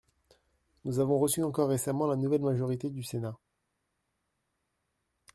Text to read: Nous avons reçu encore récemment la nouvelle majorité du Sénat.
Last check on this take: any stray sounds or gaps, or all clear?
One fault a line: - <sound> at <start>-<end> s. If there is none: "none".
none